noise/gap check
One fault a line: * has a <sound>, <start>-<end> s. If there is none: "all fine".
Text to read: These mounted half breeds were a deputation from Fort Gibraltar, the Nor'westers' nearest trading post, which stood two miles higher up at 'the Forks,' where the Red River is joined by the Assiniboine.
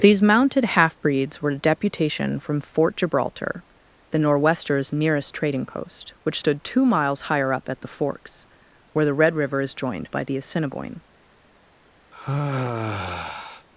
* has a sigh, 12.1-13.7 s